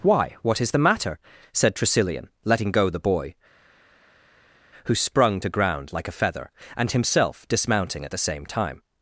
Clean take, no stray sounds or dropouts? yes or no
yes